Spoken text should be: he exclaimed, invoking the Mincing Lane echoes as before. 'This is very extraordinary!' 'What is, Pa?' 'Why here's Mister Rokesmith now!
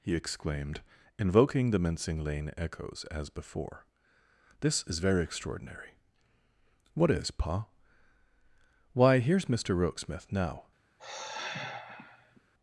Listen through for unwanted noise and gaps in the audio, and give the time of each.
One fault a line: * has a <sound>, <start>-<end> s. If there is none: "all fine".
* has a sigh, 11.0-12.4 s